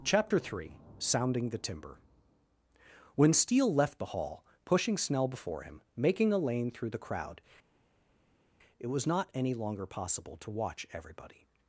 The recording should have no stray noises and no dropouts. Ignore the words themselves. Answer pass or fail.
pass